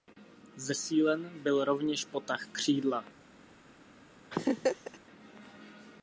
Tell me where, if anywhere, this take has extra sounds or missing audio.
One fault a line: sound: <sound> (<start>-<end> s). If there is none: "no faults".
sound: laugh (4.3-5.0 s)